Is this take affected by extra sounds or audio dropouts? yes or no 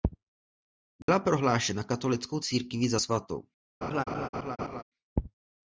yes